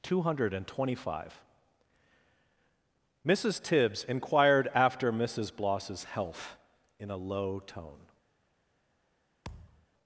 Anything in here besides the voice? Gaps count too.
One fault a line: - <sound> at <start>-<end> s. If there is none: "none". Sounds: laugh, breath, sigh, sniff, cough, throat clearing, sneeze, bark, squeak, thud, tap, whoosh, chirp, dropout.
- thud at 9.4-9.9 s